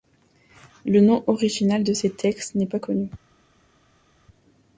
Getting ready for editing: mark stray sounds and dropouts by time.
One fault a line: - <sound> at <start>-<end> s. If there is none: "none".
none